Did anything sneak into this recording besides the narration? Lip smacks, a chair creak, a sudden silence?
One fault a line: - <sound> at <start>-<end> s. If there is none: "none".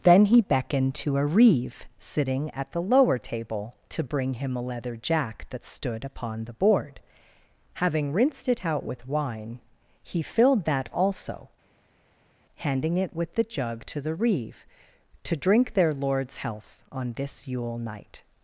none